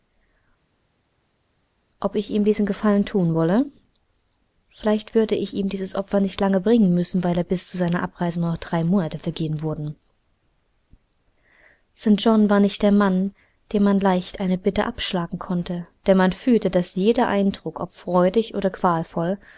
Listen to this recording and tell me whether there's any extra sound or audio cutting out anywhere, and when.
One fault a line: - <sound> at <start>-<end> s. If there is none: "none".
none